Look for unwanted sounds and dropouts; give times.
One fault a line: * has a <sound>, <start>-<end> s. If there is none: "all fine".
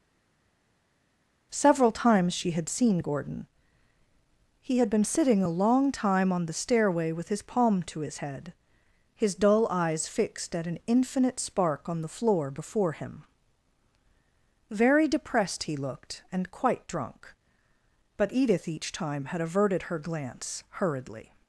all fine